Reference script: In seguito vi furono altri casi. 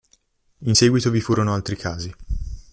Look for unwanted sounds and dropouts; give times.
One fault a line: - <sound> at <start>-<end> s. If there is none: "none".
none